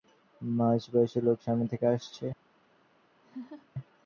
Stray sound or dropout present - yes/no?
yes